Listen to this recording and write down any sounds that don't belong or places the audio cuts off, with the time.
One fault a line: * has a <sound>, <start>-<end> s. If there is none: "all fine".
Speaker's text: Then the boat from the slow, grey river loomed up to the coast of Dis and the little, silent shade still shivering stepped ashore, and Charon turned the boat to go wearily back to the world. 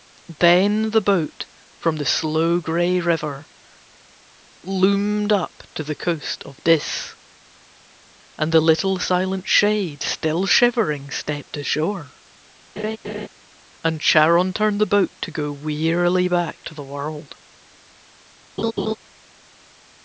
* has a laugh, 12.8-13.3 s
* has a laugh, 18.6-19.0 s